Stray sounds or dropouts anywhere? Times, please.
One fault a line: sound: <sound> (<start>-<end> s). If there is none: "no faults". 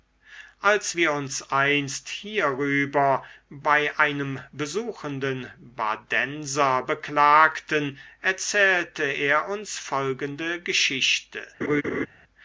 sound: laugh (11.6-12.1 s)